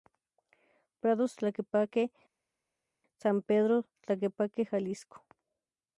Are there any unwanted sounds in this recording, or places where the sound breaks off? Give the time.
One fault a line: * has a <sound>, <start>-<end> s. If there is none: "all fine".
all fine